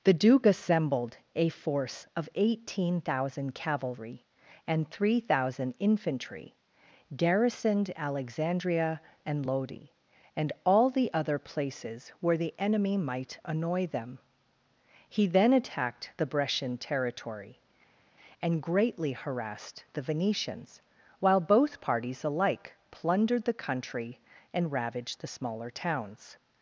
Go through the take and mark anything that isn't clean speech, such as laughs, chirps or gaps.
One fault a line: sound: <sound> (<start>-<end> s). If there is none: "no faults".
no faults